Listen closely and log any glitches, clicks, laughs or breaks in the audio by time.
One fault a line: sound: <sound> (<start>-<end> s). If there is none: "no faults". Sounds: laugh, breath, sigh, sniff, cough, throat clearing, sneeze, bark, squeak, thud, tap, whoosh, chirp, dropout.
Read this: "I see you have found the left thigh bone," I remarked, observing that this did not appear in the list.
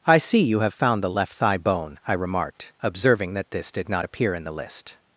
no faults